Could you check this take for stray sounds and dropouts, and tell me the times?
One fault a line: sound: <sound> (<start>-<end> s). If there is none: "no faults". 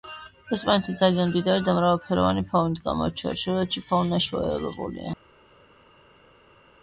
no faults